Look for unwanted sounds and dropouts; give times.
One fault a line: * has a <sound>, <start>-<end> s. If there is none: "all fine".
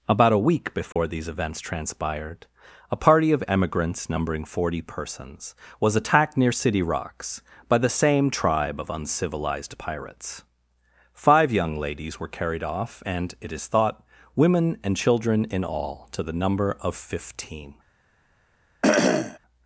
* has a dropout, 0.9-1.0 s
* has a cough, 18.8-19.4 s